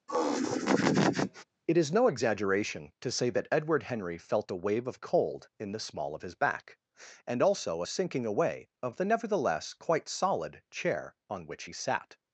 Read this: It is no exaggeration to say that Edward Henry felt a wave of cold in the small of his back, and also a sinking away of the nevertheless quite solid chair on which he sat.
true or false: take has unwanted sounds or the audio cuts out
true